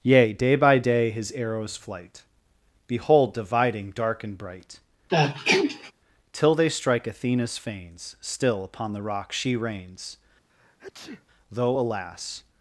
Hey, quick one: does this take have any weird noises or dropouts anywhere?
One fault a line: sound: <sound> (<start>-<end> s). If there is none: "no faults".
sound: sneeze (5.1-5.9 s)
sound: sneeze (10.5-11.3 s)